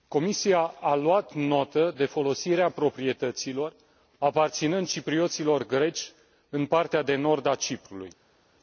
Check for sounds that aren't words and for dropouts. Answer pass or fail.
pass